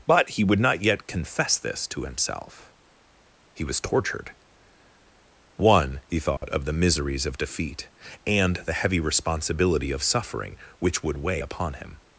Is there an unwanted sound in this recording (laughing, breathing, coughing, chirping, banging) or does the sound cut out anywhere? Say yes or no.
yes